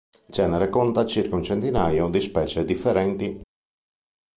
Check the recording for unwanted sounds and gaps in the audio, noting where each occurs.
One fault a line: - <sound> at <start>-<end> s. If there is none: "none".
none